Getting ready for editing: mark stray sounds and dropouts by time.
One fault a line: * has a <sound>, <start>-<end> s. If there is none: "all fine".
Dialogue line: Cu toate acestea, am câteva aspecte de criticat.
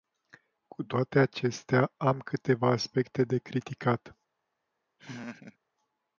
* has a laugh, 5.0-5.6 s